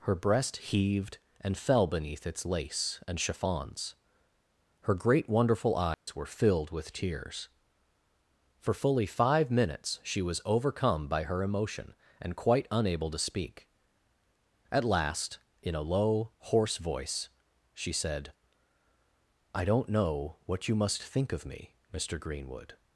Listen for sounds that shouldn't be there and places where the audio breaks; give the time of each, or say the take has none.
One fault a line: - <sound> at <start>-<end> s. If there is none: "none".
- dropout at 5.9-6.1 s